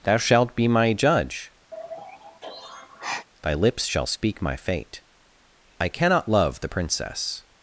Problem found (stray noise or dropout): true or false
true